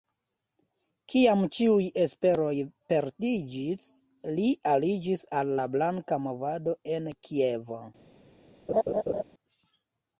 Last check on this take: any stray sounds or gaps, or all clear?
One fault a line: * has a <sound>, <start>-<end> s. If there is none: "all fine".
* has a laugh, 8.7-9.2 s